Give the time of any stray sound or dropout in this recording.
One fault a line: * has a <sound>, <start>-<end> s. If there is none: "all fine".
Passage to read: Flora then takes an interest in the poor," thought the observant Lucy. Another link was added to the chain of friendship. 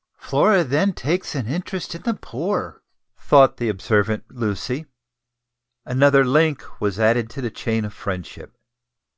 all fine